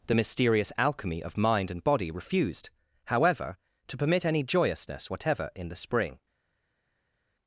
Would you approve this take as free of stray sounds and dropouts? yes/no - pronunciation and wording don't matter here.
yes